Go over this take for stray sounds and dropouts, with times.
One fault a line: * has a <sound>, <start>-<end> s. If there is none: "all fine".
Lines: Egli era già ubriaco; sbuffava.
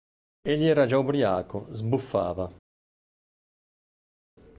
all fine